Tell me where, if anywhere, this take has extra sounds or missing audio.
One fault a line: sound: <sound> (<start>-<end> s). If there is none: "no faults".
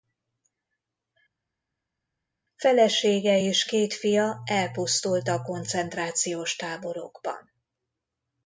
no faults